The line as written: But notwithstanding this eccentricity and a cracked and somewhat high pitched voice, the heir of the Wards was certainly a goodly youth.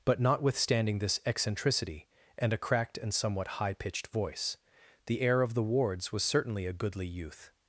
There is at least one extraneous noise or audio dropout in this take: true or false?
false